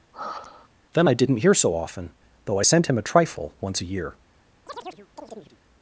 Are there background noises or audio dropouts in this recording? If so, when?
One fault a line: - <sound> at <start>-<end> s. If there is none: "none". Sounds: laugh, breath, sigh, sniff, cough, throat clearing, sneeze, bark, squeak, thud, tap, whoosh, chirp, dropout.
- sigh at 0.1-0.7 s
- chirp at 4.7-5.6 s